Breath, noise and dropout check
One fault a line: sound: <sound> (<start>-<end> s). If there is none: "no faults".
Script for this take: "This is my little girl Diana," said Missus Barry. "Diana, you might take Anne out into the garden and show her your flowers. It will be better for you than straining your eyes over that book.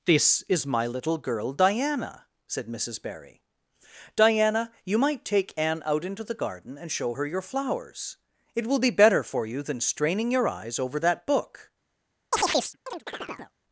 sound: chirp (12.3-13.5 s)